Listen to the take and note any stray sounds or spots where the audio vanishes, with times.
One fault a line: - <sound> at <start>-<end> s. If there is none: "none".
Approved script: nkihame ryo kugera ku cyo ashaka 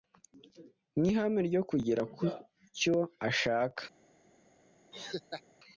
- laugh at 4.9-5.4 s